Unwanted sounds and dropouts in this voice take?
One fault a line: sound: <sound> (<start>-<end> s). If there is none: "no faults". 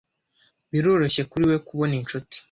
no faults